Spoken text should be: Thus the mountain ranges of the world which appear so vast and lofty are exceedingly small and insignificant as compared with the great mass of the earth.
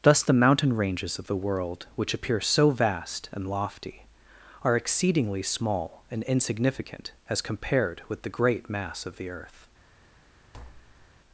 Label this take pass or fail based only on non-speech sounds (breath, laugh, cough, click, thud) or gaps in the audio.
fail